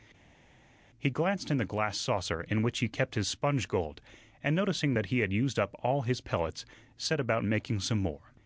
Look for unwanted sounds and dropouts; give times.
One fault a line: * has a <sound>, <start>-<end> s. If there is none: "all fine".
all fine